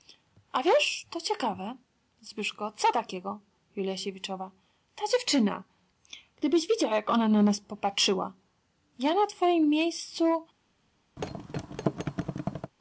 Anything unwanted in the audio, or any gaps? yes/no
yes